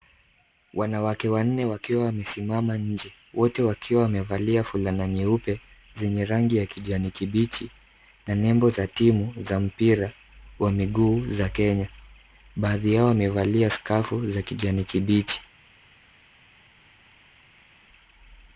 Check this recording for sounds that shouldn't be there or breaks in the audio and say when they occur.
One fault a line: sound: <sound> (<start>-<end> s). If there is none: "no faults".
no faults